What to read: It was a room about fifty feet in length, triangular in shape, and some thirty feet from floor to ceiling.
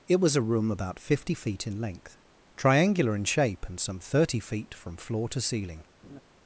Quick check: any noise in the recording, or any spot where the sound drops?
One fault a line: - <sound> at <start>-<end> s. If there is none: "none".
- laugh at 6.0-6.2 s